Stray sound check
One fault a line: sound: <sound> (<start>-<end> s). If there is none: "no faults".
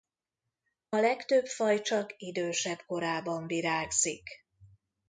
no faults